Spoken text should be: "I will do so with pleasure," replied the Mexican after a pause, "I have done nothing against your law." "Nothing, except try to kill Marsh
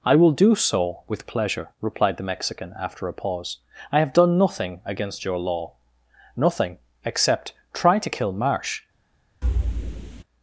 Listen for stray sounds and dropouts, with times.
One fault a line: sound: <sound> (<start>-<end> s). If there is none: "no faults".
sound: thud (9.4-10.2 s)